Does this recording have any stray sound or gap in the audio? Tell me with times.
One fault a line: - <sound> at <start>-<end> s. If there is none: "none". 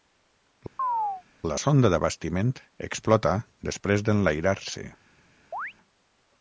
- chirp at 0.8-1.2 s
- chirp at 5.5-5.7 s